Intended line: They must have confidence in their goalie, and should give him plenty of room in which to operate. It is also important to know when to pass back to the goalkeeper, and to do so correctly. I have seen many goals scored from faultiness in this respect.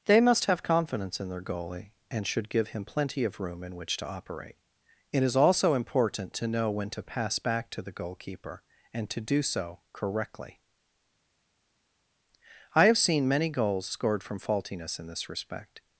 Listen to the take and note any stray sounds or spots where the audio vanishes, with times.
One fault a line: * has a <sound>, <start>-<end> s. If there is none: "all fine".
all fine